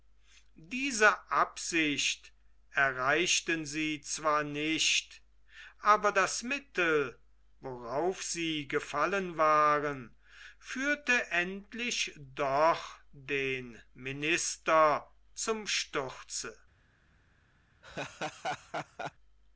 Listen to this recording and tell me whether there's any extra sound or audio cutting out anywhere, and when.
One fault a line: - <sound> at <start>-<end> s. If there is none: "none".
- laugh at 17.8-19.1 s